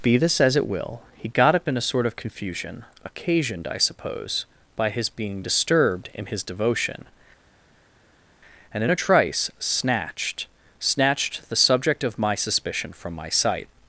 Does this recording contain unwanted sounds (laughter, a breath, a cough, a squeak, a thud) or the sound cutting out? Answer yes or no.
no